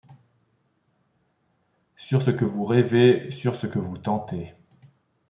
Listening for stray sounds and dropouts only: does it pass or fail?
pass